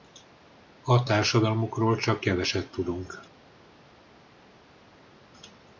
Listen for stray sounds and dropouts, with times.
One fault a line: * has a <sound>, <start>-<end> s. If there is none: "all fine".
all fine